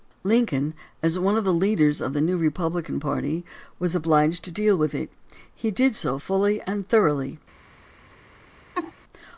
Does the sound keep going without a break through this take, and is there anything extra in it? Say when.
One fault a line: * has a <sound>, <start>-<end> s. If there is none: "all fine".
* has a laugh, 8.7-8.9 s